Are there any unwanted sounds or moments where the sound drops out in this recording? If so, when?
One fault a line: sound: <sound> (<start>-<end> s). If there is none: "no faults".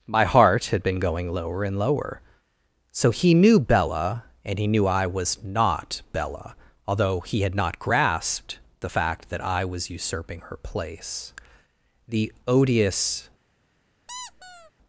sound: squeak (14.1-14.7 s)